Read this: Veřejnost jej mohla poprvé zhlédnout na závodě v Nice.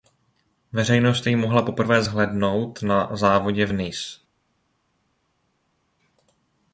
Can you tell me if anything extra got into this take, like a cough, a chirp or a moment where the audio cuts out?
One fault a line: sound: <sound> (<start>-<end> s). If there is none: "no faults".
no faults